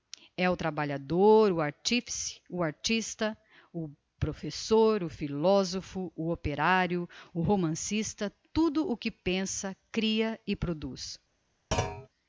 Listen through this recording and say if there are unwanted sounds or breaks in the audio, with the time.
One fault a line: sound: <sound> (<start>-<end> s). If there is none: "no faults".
sound: thud (11.7-12.1 s)